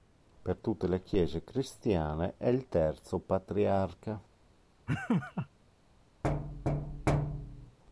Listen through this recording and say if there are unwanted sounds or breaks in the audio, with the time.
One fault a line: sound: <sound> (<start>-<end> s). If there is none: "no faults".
sound: laugh (4.9-5.5 s)
sound: thud (6.2-7.8 s)